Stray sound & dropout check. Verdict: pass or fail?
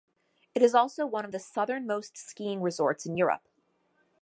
pass